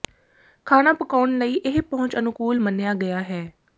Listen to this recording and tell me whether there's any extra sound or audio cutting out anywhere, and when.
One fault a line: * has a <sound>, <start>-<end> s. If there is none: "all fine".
all fine